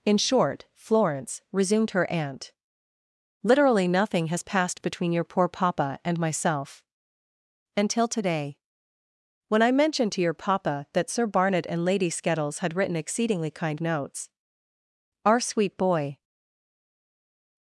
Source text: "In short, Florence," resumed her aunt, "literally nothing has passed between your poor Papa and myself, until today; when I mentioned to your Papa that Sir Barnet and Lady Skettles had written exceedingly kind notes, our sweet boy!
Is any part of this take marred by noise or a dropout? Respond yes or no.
no